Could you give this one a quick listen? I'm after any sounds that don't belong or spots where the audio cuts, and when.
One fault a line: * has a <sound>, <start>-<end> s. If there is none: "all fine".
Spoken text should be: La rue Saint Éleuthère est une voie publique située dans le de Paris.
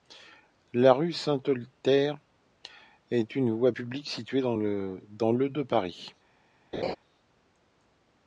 * has a laugh, 6.7-7.0 s